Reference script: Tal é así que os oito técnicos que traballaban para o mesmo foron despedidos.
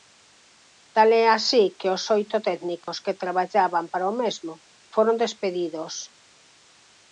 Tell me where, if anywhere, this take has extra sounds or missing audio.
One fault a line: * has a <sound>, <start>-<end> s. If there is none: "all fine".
* has a dropout, 2.8-2.9 s